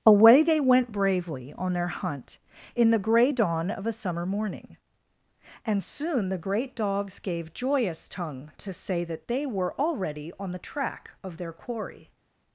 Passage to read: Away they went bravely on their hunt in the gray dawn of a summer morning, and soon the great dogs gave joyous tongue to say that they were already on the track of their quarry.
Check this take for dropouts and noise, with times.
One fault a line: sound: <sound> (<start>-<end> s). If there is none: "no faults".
no faults